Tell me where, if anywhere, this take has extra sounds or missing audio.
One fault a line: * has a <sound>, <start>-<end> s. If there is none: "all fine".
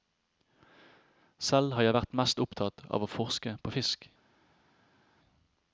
all fine